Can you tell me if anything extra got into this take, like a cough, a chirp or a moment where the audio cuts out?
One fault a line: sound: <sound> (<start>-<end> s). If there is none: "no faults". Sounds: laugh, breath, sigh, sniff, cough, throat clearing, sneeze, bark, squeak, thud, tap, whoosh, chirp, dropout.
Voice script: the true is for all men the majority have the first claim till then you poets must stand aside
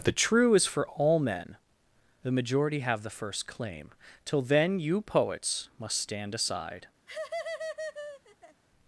sound: laugh (7.1-8.6 s)